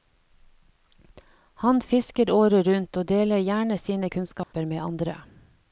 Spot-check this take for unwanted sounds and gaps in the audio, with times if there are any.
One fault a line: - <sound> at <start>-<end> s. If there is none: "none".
- dropout at 4.4-4.5 s